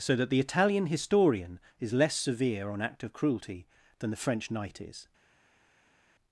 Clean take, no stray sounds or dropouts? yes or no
yes